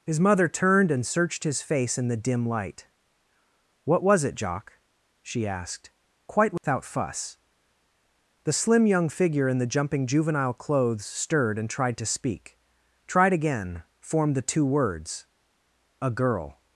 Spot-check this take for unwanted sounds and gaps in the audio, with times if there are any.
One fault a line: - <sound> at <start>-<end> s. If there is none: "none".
- dropout at 6.6-6.6 s